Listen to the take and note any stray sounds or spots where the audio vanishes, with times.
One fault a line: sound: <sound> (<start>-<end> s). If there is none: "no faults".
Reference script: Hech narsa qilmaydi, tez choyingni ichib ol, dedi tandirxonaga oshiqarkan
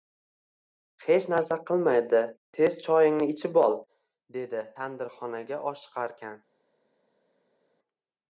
no faults